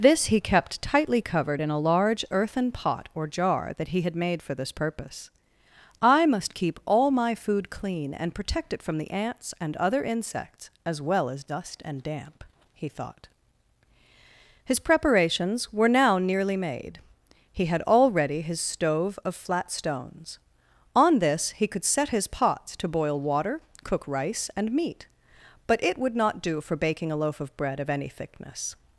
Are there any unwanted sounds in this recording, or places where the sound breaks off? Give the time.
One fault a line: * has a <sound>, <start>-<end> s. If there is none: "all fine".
all fine